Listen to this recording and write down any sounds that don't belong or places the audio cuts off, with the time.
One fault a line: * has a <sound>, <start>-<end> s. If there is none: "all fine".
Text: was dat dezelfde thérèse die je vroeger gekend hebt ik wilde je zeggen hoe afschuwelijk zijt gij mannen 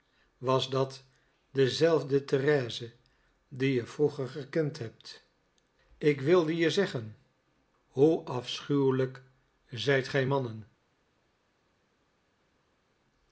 all fine